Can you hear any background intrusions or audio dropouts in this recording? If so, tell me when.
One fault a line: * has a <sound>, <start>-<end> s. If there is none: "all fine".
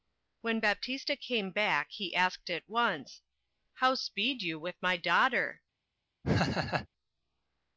* has a laugh, 6.2-6.9 s